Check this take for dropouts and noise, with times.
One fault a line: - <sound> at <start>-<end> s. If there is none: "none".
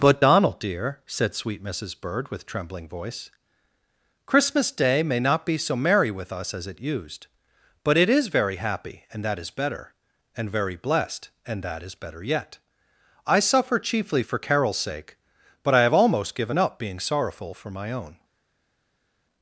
none